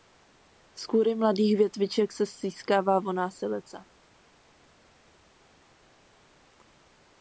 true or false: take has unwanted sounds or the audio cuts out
false